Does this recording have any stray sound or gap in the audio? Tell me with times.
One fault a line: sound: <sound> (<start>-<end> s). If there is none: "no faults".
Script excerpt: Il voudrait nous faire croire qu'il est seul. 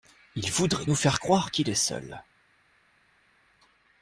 no faults